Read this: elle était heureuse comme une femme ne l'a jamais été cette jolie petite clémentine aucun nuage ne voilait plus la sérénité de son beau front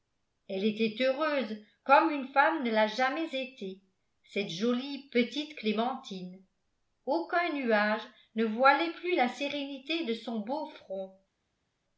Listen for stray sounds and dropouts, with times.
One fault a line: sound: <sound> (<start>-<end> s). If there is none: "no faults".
no faults